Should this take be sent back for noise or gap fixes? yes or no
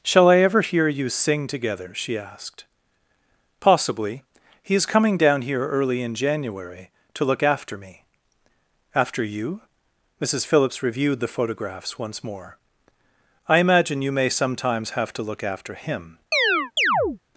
yes